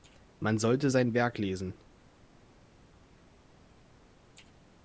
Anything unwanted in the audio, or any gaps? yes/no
no